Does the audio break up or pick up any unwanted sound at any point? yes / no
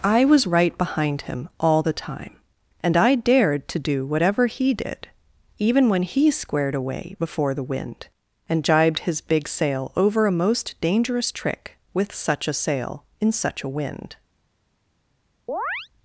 yes